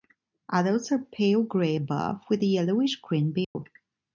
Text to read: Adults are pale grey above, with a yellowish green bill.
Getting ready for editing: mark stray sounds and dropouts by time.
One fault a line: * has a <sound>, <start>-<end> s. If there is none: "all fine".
* has a dropout, 3.4-3.5 s